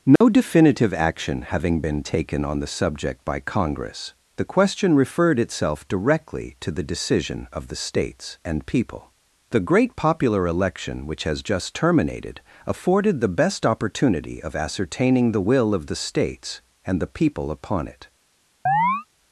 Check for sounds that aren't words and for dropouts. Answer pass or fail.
fail